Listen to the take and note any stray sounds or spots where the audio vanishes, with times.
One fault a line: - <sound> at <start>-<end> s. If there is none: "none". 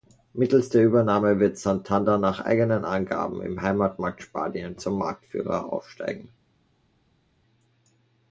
none